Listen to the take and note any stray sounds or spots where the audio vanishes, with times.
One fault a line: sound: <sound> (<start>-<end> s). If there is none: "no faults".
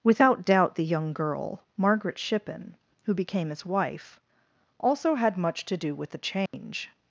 sound: dropout (6.5-6.5 s)